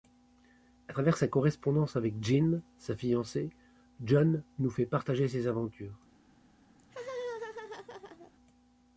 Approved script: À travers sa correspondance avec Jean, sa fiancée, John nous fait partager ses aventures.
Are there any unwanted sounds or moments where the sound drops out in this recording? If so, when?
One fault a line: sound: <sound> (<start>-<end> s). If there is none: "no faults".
sound: laugh (6.8-8.3 s)